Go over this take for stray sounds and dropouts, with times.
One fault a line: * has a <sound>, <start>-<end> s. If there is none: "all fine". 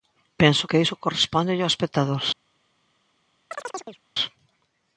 * has a chirp, 3.5-4.0 s